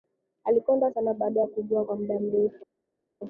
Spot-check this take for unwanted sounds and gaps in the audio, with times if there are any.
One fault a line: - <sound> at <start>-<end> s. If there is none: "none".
none